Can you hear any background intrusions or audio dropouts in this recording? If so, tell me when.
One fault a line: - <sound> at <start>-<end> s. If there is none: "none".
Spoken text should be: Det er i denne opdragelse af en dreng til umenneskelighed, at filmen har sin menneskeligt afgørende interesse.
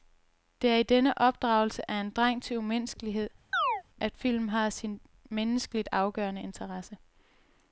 - chirp at 3.5-3.8 s